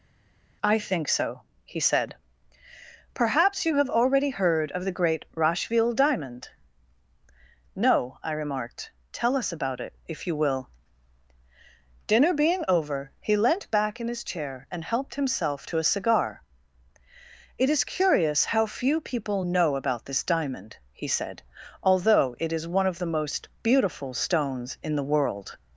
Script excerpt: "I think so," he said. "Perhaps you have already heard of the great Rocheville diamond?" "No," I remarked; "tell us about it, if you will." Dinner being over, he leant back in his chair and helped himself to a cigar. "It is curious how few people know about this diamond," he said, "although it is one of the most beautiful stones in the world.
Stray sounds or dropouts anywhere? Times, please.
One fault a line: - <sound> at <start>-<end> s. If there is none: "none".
none